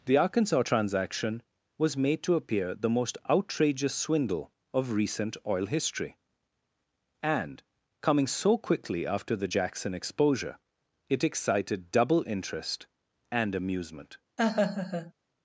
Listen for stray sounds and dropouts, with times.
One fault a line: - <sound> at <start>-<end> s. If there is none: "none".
- laugh at 14.4-15.1 s